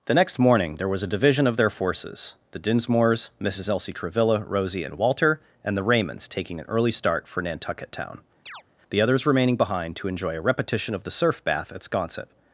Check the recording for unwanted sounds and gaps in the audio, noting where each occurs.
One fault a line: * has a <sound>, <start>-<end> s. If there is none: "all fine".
* has a chirp, 8.5-8.6 s